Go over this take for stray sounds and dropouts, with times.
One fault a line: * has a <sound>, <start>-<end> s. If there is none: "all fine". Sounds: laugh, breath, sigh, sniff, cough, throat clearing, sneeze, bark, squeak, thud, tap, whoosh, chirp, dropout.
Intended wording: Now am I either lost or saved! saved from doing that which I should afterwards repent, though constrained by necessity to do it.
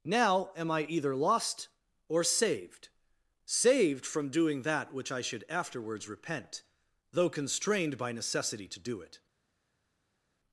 all fine